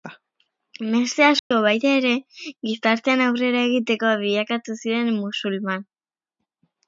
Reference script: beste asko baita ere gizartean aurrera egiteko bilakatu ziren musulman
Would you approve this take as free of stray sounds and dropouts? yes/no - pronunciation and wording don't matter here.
no